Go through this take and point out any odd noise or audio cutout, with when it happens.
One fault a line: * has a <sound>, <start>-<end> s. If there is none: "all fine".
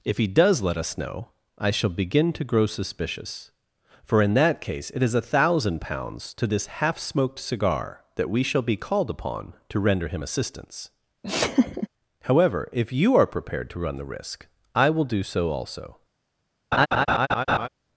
* has a laugh, 11.2-11.9 s
* has a laugh, 16.7-17.7 s